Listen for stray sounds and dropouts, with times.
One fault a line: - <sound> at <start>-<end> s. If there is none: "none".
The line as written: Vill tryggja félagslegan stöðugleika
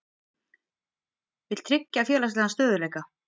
none